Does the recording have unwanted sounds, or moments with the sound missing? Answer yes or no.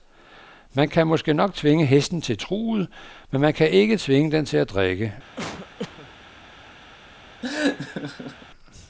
yes